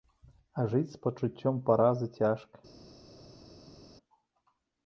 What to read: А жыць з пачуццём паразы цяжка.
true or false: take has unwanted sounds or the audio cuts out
false